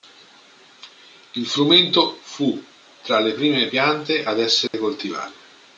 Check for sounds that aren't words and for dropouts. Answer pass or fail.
fail